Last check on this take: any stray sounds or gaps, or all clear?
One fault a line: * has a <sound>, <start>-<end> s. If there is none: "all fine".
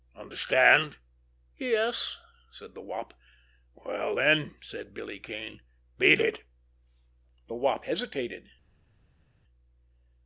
all fine